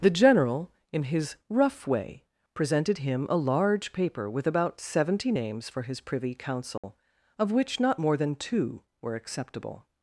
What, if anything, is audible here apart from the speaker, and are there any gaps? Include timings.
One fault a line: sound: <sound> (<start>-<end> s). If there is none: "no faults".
sound: dropout (6.8-6.8 s)